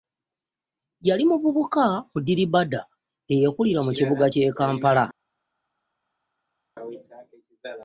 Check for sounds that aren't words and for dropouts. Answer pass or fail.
pass